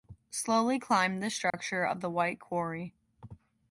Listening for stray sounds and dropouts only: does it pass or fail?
fail